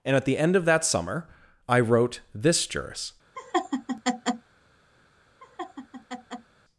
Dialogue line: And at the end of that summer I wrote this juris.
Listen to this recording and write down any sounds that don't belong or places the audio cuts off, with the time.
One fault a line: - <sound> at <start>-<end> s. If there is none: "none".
- laugh at 3.4-4.5 s
- laugh at 5.4-6.5 s